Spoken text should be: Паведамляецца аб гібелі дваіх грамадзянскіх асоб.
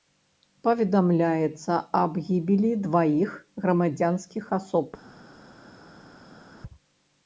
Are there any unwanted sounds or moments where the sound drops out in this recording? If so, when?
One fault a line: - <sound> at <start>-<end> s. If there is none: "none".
none